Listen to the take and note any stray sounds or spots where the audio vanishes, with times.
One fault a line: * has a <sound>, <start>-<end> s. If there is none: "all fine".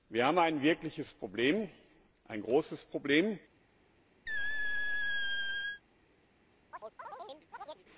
* has a squeak, 4.3-5.8 s
* has a chirp, 6.7-7.8 s